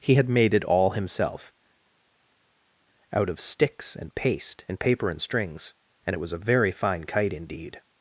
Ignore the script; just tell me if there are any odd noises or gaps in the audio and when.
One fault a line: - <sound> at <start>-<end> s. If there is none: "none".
none